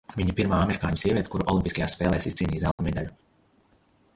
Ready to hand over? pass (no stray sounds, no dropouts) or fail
fail